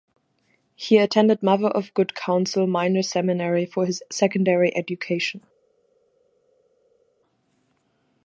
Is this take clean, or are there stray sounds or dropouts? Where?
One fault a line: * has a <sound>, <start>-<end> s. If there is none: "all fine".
all fine